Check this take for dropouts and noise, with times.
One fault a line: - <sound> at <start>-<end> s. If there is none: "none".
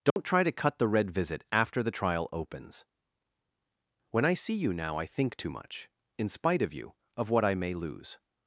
- dropout at 0.1-0.2 s